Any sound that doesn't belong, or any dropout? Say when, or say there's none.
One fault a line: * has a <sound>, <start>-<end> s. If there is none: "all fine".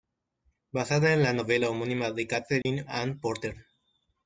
* has a dropout, 2.6-2.7 s